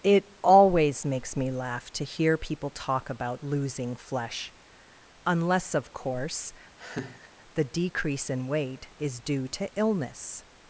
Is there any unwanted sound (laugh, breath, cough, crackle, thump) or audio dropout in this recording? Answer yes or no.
yes